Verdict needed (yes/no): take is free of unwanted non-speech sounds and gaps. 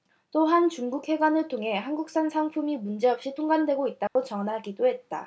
no